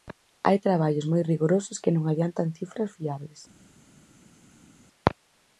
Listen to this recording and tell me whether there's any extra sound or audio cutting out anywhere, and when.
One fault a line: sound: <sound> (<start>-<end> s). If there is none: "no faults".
no faults